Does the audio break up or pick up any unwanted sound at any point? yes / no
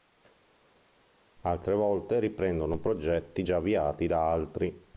no